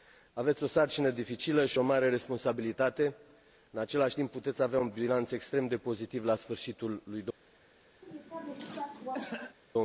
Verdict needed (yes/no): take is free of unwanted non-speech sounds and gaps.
no